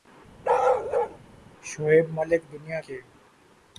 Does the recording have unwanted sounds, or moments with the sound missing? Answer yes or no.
yes